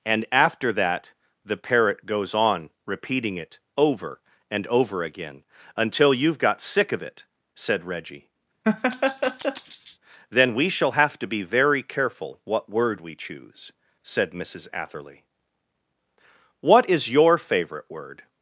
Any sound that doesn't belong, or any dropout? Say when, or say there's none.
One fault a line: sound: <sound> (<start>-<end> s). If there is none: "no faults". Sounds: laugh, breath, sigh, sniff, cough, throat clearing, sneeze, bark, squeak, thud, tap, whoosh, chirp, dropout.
sound: laugh (8.6-10.0 s)